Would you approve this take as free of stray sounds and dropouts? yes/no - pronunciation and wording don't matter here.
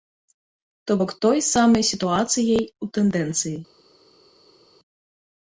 yes